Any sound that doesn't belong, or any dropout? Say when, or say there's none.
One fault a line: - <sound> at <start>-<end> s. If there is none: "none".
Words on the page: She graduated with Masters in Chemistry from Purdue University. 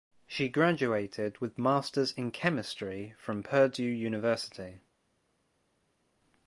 none